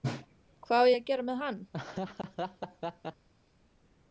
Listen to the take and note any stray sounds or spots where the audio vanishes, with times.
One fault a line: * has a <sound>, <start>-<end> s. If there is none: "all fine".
* has a laugh, 1.7-3.3 s